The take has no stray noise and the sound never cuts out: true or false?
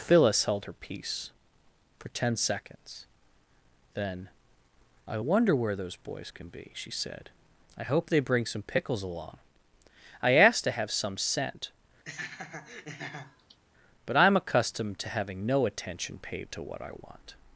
false